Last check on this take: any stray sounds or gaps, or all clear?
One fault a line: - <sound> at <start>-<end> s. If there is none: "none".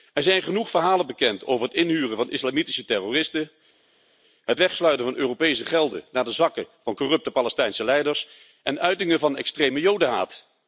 none